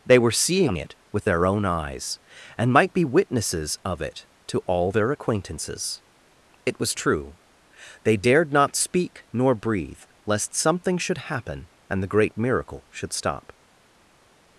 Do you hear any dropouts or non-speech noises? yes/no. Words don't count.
no